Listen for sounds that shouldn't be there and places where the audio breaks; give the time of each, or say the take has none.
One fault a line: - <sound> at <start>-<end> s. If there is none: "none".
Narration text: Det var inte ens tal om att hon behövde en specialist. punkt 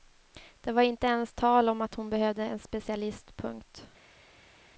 none